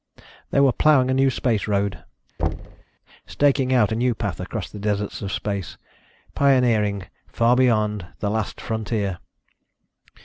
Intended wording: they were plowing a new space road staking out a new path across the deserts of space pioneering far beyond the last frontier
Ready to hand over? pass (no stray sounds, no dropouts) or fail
fail